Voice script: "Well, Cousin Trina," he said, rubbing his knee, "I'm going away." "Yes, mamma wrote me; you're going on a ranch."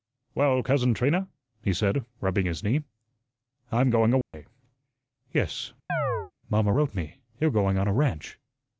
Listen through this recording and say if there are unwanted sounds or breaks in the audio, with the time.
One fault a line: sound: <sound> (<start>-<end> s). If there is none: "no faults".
sound: dropout (4.2-4.3 s)
sound: chirp (5.9-6.3 s)